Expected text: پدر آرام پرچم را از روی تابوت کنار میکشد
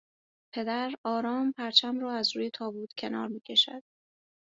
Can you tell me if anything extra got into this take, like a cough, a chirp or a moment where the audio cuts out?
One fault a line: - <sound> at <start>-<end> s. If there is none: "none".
none